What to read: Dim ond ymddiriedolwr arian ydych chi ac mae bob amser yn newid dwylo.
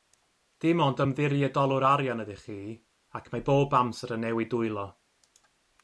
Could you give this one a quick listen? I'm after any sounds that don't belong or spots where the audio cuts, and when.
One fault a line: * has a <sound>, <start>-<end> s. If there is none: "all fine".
all fine